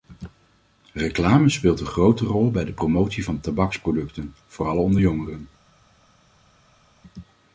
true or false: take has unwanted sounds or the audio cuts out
false